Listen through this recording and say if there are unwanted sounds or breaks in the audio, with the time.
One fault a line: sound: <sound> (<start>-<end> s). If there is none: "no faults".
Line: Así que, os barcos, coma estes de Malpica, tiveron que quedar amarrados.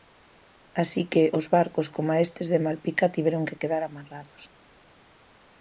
no faults